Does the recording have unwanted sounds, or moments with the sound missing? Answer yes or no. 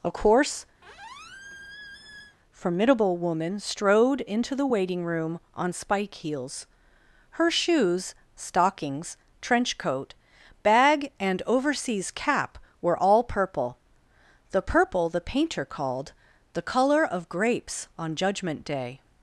yes